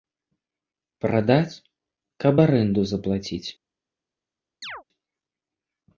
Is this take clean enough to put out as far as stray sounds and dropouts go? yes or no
no